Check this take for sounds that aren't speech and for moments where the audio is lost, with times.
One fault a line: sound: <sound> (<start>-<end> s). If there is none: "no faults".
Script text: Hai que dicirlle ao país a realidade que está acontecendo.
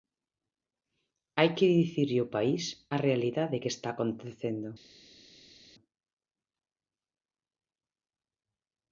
no faults